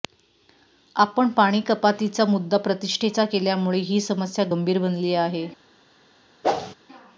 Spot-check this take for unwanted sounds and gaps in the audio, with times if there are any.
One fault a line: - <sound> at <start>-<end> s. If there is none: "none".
- whoosh at 6.4-6.7 s